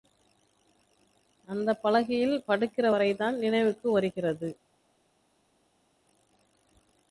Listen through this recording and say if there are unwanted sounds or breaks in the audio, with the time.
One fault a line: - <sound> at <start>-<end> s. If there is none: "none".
none